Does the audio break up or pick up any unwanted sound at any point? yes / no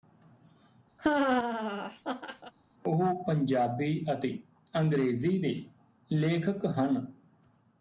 yes